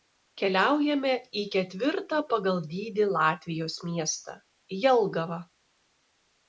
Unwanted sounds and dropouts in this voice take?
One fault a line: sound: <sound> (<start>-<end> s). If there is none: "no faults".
no faults